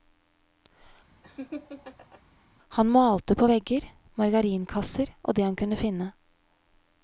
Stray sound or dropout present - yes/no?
yes